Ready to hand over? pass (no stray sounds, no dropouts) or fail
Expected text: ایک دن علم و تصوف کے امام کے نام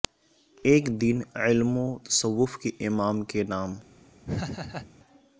fail